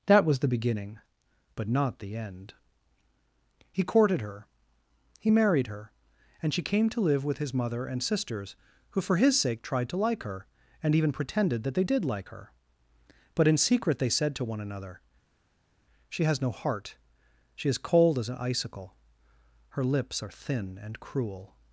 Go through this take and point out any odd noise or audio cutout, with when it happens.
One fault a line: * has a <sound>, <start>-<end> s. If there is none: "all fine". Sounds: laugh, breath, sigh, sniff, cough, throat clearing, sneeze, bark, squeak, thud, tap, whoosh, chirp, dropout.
all fine